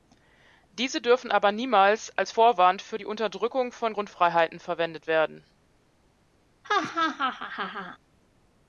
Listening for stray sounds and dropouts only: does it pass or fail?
fail